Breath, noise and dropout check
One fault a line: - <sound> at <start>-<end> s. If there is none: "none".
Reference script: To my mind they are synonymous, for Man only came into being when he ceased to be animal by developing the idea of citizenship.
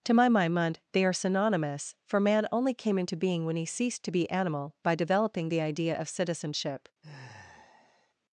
- sigh at 7.0-8.1 s